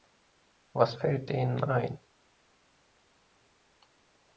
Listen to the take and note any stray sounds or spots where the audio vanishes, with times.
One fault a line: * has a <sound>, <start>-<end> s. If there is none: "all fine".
all fine